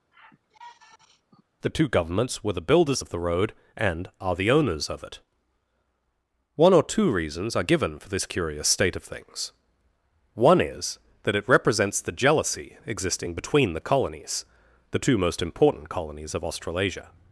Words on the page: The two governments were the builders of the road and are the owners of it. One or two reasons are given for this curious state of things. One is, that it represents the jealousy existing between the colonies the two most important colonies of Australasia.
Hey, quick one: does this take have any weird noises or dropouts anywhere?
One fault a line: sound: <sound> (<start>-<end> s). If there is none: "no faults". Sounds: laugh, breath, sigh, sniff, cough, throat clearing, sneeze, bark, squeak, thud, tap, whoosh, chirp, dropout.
sound: sigh (0.1-1.4 s)